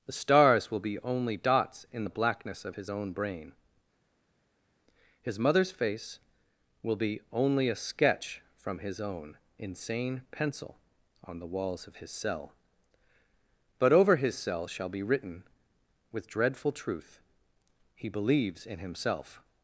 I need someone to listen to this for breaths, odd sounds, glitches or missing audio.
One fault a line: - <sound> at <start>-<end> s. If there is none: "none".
none